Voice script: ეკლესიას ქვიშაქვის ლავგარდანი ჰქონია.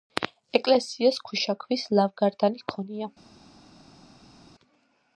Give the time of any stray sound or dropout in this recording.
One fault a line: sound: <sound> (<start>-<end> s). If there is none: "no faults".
no faults